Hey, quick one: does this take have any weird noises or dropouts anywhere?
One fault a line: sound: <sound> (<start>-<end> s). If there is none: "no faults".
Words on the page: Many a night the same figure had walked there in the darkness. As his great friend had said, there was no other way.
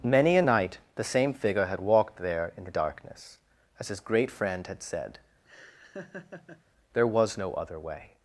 sound: laugh (5.4-6.6 s)